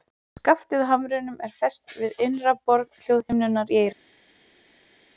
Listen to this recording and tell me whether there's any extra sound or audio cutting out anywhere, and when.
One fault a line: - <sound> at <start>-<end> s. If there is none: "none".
none